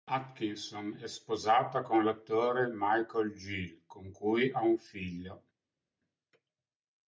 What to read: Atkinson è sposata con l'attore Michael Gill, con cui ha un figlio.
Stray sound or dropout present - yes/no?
no